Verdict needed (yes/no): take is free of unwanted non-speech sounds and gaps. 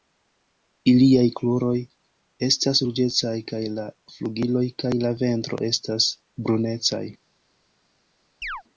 no